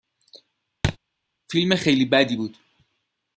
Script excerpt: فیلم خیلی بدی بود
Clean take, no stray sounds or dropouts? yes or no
no